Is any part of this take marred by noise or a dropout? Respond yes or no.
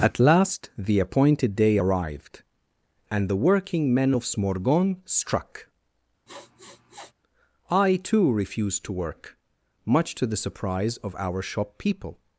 yes